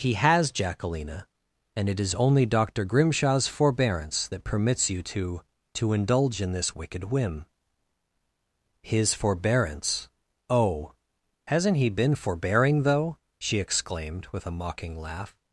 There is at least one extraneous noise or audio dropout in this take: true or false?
false